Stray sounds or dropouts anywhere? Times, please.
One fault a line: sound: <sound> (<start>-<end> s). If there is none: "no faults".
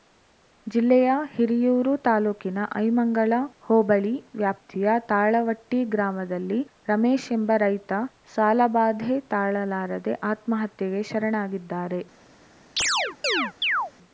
sound: chirp (12.8-13.9 s)